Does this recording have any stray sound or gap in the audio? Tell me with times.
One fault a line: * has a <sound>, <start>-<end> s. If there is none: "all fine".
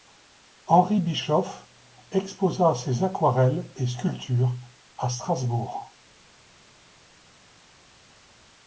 all fine